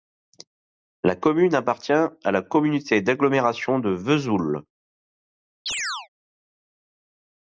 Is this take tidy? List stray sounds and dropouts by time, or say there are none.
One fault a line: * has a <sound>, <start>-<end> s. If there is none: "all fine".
* has a chirp, 5.7-6.1 s